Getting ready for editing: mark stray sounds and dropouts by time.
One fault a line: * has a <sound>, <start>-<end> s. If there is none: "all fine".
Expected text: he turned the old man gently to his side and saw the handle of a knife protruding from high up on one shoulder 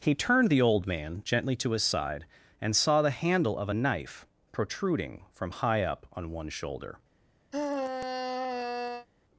* has a sigh, 7.5-9.1 s